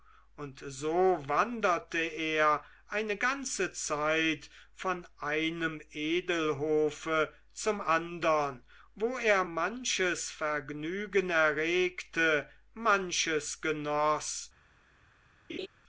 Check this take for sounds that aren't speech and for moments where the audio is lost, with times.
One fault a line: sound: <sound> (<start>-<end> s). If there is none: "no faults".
sound: laugh (15.5-15.7 s)